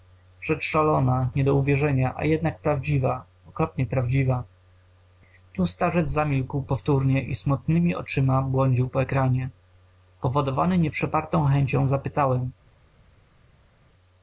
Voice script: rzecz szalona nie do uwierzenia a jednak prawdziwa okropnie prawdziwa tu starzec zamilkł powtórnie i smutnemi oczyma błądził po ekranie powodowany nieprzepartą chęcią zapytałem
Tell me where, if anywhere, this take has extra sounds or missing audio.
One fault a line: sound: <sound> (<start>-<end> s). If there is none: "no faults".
no faults